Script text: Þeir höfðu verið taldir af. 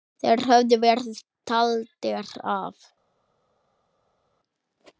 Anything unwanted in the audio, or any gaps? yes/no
no